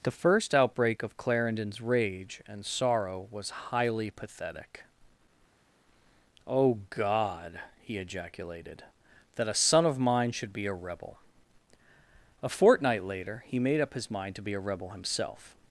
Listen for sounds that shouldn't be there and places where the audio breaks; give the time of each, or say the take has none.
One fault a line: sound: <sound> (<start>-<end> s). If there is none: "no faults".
no faults